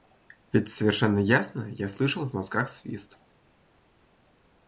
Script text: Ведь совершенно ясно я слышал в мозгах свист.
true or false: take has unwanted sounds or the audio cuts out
false